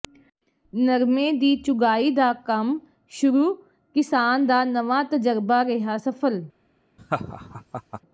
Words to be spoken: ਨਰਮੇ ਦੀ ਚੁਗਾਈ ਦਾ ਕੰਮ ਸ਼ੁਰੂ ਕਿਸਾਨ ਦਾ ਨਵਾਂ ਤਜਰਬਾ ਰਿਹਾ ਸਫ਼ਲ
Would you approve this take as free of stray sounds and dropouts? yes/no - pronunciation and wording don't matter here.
no